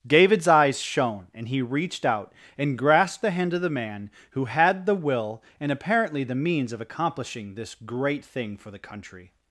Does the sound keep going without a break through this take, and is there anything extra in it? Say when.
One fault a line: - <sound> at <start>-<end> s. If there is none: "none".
none